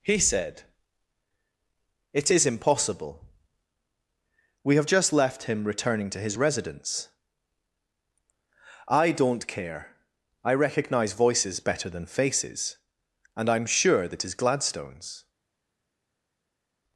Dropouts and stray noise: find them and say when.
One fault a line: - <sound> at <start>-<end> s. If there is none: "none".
none